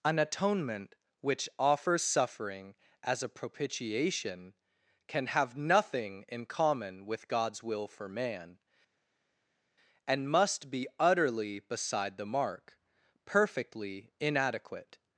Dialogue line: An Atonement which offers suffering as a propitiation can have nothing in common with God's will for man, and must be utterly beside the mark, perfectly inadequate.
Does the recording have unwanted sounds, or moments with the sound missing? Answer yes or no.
no